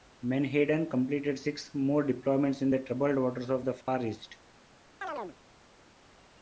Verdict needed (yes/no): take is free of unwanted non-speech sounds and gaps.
no